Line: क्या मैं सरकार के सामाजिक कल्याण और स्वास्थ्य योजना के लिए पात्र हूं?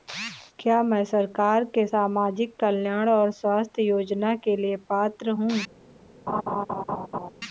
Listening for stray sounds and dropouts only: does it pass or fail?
fail